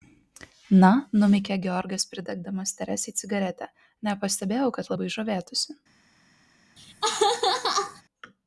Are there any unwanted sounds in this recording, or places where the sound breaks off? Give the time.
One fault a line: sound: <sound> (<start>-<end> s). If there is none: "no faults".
sound: laugh (6.8-8.0 s)